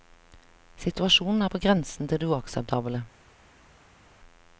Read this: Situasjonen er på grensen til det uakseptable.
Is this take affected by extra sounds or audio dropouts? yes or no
no